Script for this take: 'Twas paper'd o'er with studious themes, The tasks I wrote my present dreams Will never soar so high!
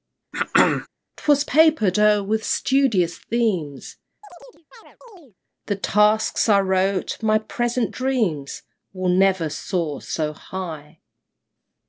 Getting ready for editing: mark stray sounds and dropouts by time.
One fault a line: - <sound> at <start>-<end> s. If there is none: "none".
- throat clearing at 0.3-0.9 s
- chirp at 4.2-5.3 s